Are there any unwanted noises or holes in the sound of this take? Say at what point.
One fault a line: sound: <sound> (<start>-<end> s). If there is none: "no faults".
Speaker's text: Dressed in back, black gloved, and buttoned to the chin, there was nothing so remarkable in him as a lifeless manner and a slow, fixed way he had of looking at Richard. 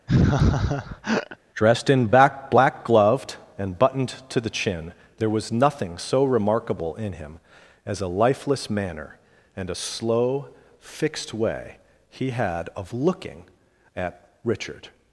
sound: laugh (0.1-1.4 s)